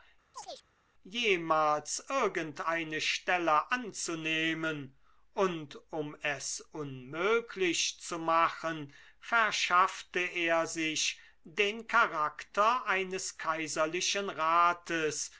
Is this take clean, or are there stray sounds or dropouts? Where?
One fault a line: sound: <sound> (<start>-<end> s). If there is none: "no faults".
sound: chirp (0.3-0.7 s)